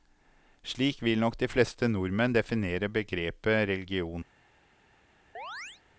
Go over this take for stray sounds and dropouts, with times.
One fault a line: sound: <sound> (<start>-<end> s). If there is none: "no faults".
sound: chirp (5.3-5.8 s)